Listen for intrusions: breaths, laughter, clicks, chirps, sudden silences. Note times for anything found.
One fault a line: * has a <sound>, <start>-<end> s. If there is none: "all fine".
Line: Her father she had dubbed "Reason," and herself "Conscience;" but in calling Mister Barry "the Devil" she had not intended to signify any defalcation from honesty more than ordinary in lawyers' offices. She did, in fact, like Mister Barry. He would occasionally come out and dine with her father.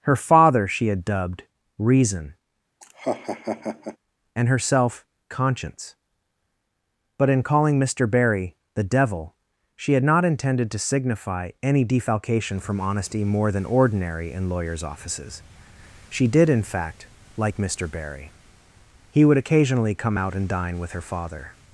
* has a laugh, 2.8-4.0 s